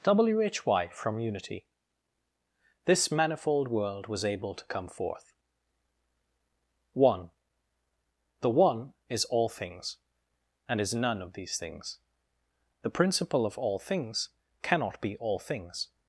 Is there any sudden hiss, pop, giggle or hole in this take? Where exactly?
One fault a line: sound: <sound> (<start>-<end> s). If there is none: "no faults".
no faults